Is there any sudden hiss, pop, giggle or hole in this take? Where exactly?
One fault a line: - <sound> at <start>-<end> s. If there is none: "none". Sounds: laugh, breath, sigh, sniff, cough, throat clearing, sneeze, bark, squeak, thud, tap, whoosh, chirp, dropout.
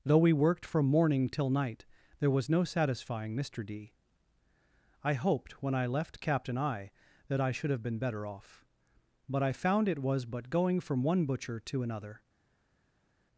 none